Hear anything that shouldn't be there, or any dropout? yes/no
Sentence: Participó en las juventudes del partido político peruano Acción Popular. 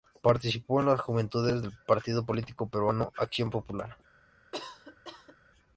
yes